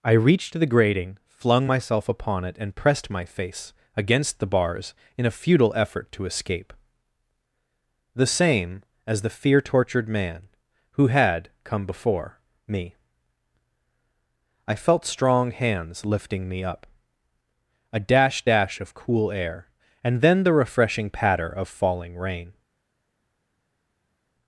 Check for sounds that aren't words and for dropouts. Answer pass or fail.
pass